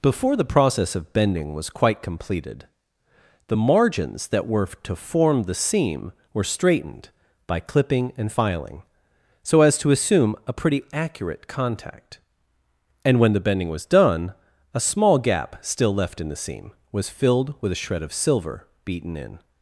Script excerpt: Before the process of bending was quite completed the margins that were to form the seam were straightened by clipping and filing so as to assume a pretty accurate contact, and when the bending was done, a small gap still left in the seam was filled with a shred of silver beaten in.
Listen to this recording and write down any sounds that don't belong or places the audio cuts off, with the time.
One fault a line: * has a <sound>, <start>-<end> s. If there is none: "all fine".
all fine